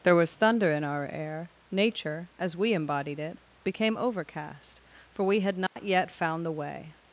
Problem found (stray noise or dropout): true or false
true